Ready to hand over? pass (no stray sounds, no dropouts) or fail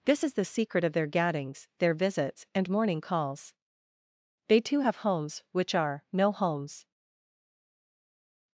pass